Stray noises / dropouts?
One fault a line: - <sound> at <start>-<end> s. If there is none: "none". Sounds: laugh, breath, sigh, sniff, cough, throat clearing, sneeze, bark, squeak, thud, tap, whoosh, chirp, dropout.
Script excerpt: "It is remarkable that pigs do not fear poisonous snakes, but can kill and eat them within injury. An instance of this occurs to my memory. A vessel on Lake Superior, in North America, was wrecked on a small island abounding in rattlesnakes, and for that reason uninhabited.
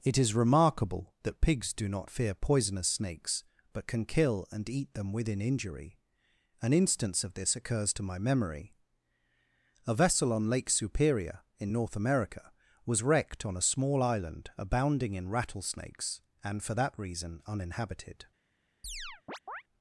- chirp at 18.8-19.6 s